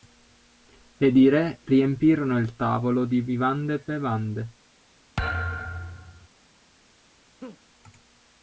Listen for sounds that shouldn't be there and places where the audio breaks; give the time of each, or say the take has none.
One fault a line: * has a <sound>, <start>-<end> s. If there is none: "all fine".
* has a thud, 5.2-6.3 s
* has a laugh, 7.4-7.6 s